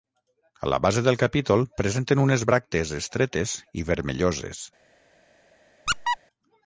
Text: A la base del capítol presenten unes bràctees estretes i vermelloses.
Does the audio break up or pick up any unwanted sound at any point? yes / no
yes